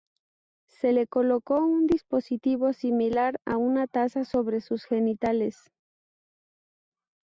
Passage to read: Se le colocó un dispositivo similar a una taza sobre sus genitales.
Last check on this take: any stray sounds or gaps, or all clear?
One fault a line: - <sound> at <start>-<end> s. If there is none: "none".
none